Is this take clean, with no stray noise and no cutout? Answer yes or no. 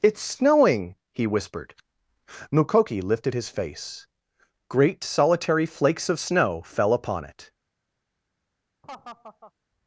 no